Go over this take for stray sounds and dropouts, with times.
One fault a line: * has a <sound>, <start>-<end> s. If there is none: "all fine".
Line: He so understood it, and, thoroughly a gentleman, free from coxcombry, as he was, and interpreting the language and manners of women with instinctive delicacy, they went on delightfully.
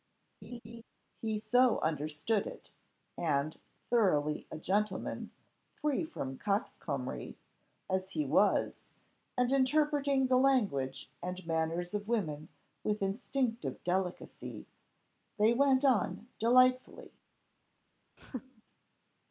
* has a laugh, 0.4-0.8 s
* has a laugh, 18.2-18.6 s